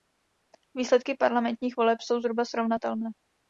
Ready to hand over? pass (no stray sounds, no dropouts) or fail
pass